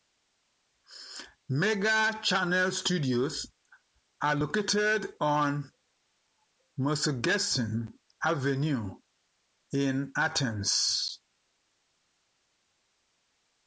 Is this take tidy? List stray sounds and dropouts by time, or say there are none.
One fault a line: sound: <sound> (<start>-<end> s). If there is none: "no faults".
no faults